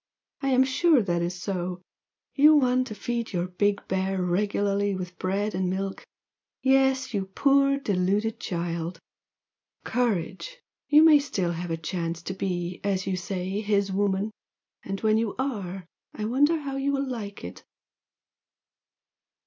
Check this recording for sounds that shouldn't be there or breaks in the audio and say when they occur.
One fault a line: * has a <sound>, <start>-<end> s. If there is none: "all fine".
all fine